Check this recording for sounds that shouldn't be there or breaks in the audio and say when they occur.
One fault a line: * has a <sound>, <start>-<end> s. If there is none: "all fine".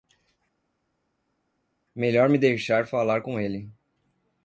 all fine